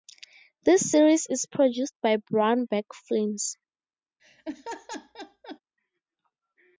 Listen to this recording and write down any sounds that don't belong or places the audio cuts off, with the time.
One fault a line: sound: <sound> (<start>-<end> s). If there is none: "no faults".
sound: laugh (4.2-5.6 s)